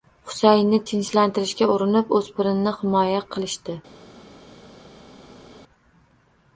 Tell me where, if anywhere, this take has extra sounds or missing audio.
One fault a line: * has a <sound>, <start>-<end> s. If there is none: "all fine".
all fine